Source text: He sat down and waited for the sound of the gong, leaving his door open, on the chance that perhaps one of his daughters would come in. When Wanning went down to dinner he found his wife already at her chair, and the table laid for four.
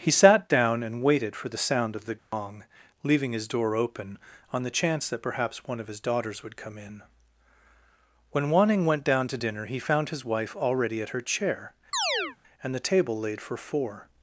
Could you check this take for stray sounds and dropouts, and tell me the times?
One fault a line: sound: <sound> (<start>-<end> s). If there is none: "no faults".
sound: dropout (2.2-2.3 s)
sound: chirp (11.9-12.4 s)